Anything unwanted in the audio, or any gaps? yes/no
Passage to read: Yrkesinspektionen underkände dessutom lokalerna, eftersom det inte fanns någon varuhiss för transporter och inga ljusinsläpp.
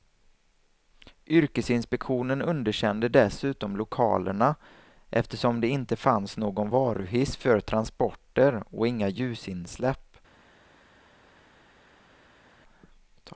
no